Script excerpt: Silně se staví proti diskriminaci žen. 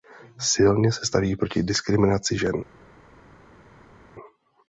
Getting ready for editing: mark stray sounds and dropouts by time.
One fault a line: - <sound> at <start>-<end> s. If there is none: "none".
none